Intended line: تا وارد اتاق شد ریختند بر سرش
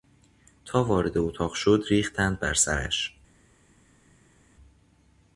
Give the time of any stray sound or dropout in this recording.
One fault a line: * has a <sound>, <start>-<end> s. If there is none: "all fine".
all fine